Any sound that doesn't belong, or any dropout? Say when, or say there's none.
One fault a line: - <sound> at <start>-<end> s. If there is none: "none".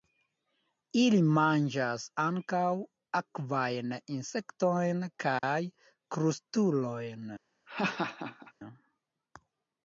- dropout at 5.4-5.4 s
- laugh at 7.7-8.5 s